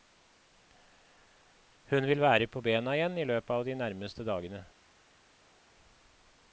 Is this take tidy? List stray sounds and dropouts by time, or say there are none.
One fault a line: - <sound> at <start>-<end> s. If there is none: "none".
none